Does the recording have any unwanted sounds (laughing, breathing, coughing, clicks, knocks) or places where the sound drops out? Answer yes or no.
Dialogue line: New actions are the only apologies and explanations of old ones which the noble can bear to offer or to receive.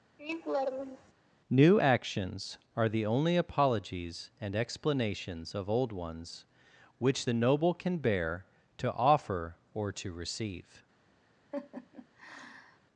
yes